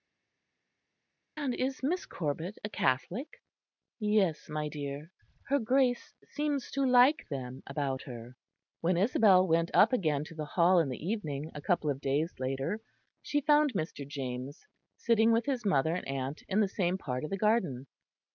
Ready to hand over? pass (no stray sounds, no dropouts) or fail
pass